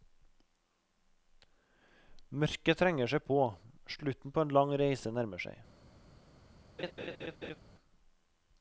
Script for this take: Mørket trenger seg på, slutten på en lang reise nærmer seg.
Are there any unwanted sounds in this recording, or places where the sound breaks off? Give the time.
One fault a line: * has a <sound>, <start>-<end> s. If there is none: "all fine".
* has a laugh, 6.8-7.6 s